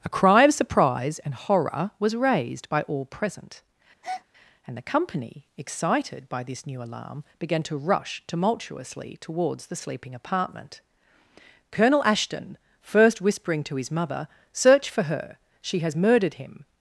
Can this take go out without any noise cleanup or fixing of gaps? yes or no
no